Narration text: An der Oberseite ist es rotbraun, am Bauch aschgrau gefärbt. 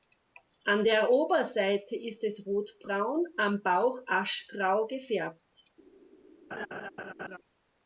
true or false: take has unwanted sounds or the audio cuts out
true